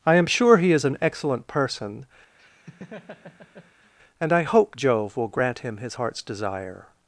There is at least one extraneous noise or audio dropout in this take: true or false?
true